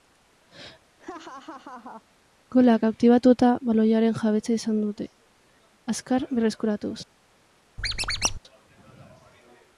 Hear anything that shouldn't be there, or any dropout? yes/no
yes